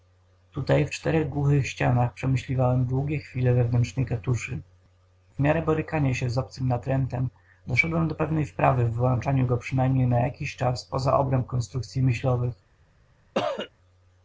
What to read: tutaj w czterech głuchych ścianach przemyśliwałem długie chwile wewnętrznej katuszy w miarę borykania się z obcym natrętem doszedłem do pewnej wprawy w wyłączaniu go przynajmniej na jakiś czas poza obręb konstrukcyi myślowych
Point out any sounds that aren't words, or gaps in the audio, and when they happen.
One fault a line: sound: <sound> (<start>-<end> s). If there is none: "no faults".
sound: cough (13.3-13.7 s)